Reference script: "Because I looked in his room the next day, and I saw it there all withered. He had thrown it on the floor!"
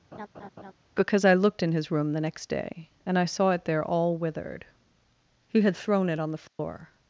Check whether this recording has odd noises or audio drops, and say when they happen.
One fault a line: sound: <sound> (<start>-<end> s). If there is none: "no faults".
sound: laugh (0.1-0.7 s)
sound: dropout (6.5-6.6 s)